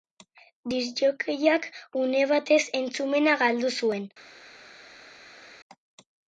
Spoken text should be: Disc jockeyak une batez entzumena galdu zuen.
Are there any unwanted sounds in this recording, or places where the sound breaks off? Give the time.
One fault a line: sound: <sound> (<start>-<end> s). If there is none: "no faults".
no faults